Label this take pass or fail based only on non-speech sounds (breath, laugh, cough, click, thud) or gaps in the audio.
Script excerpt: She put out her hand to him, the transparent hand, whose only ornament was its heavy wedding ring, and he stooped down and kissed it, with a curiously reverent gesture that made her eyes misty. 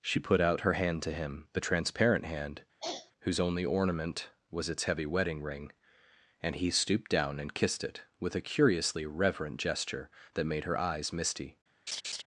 fail